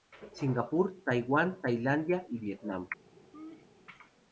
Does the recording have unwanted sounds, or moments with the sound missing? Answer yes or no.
yes